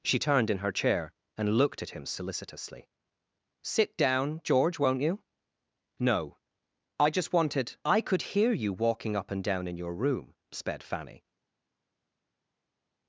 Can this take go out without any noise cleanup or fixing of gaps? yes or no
yes